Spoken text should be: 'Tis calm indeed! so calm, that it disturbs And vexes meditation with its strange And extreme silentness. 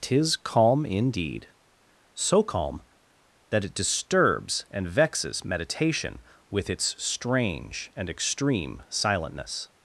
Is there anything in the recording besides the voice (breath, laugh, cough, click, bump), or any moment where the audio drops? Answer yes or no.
no